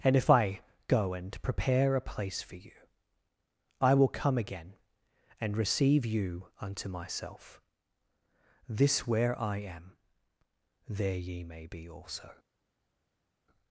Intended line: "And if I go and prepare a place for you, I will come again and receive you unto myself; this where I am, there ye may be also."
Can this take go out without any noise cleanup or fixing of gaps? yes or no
yes